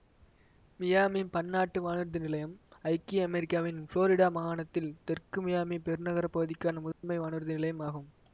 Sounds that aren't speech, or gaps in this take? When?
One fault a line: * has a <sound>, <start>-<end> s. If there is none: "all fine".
* has a dropout, 6.9-7.0 s